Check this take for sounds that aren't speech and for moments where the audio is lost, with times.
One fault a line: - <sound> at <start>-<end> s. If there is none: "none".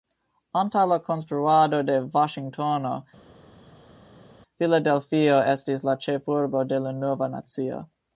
none